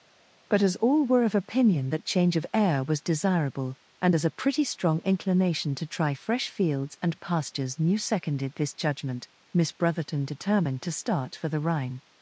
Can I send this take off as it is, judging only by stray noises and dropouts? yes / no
yes